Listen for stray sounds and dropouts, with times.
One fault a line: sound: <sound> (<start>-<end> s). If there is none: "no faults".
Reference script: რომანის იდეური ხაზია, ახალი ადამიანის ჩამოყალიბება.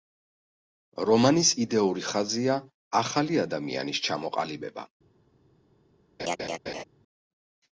sound: laugh (6.2-6.8 s)